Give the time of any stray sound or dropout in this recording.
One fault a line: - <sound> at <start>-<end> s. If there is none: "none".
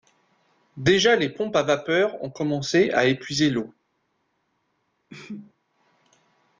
- sneeze at 5.1-5.5 s